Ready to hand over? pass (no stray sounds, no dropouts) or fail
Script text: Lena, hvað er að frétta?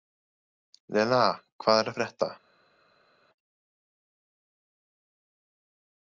pass